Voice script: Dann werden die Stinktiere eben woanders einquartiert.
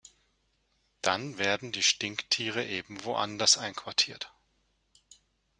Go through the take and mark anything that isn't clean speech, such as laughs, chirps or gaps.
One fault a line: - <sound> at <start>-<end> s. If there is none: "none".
none